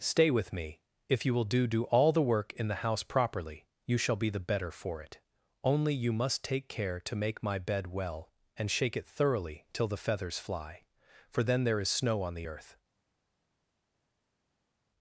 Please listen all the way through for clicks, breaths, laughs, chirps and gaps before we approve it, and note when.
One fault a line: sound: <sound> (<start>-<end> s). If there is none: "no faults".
no faults